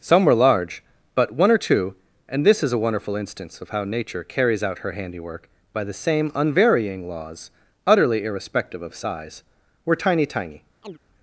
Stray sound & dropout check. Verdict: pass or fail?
fail